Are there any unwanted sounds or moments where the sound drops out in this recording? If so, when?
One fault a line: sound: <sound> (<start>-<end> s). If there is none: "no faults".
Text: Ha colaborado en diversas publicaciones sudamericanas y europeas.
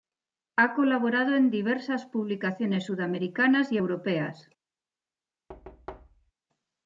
sound: thud (5.5-6.3 s)